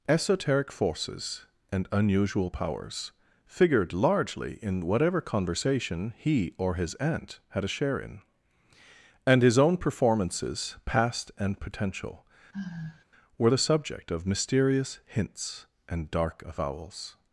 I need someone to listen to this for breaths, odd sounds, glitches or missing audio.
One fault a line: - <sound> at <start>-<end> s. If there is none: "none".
- sigh at 12.5-13.0 s